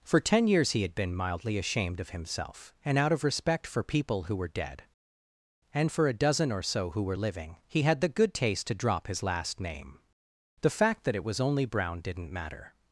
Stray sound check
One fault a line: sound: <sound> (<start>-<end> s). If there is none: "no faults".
no faults